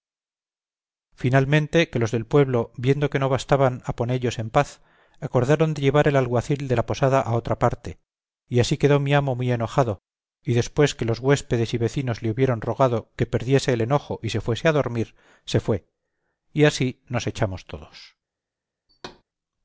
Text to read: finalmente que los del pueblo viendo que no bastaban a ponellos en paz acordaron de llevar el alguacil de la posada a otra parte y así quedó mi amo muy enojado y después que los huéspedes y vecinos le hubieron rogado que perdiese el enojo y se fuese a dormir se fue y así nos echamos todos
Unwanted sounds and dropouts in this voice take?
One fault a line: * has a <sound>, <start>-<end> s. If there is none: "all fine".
* has a thud, 18.9-19.2 s